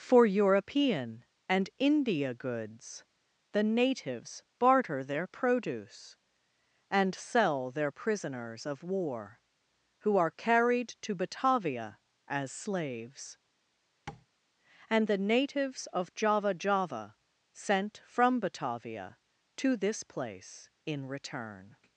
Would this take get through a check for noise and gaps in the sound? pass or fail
fail